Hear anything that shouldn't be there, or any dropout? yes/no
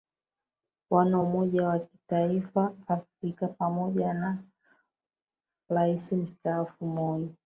no